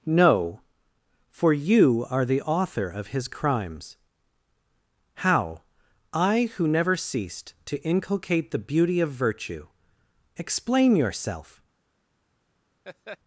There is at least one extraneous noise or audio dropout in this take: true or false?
true